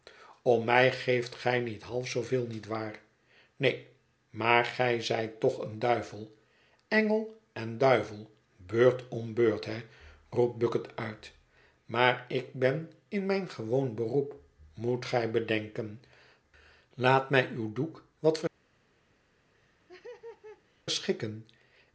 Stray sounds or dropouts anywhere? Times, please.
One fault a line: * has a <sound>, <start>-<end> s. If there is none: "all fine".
* has a laugh, 19.5-20.8 s